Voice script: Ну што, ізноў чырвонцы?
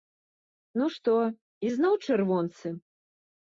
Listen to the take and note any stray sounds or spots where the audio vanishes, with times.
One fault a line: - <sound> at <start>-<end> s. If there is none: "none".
none